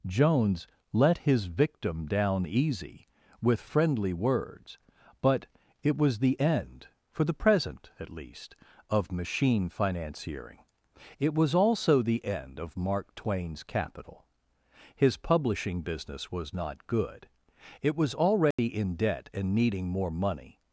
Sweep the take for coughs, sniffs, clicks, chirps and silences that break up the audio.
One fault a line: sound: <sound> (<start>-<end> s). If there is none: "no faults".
sound: dropout (18.5-18.6 s)